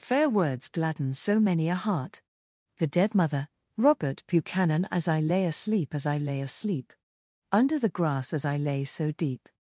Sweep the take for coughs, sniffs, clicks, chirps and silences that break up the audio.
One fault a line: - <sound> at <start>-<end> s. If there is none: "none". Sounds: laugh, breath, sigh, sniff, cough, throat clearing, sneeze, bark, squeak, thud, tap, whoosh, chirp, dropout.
none